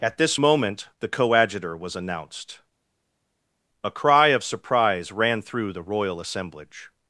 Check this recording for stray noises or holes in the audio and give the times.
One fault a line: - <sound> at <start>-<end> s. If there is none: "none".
none